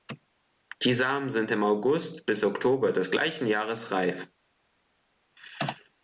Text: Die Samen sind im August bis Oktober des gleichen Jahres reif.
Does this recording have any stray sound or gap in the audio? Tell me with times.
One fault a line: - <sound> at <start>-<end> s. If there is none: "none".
none